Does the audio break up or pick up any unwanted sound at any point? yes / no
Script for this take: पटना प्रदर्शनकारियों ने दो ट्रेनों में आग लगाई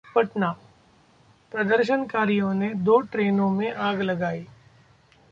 no